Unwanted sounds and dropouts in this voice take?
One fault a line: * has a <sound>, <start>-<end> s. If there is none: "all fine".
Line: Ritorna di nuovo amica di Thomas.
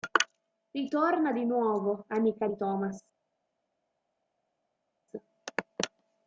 all fine